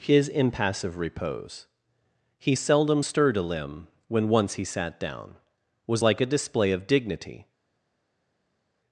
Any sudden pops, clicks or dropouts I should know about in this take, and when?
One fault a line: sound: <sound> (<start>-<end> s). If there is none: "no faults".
no faults